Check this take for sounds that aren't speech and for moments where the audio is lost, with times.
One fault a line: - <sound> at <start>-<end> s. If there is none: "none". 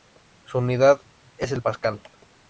none